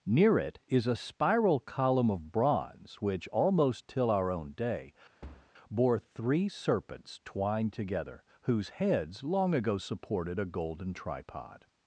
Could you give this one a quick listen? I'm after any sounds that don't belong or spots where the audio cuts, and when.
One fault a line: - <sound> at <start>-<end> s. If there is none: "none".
- thud at 5.2-5.5 s